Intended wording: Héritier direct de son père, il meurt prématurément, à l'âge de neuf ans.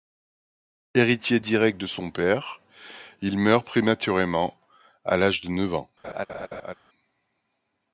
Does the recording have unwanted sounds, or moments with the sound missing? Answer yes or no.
yes